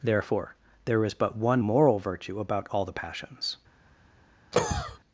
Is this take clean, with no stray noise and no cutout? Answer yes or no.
no